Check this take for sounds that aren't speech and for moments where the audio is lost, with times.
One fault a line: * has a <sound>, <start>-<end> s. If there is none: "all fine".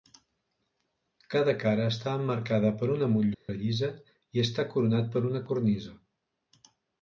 * has a dropout, 3.3-3.5 s